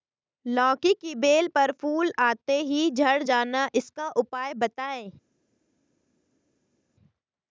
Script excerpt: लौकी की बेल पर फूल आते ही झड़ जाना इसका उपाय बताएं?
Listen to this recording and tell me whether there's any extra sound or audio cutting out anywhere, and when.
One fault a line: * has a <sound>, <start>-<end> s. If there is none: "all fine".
all fine